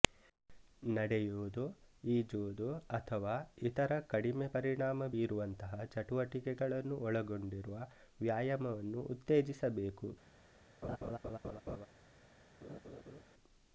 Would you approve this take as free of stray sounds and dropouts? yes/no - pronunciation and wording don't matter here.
no